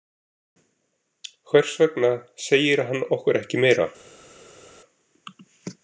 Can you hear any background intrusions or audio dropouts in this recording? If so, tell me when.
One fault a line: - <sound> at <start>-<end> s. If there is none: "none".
none